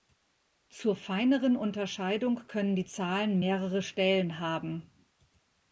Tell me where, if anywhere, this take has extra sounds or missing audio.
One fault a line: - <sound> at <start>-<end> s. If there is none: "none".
none